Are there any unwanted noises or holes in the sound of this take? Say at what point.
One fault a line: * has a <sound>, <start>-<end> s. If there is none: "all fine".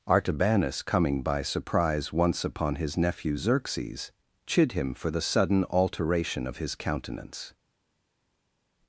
all fine